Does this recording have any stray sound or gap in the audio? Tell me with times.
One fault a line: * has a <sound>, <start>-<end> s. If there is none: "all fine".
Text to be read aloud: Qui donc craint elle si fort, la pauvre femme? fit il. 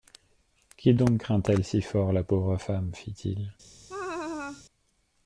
* has a laugh, 3.9-4.6 s